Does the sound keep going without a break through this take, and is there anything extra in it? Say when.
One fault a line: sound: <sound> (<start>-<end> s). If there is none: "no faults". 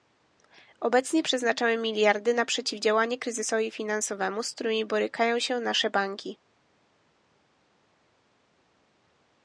no faults